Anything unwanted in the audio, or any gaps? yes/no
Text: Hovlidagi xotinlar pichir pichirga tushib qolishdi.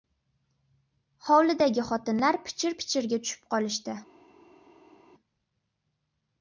no